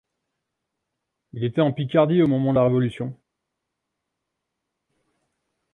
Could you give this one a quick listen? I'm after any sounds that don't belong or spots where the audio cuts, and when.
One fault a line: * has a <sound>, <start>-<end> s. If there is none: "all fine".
all fine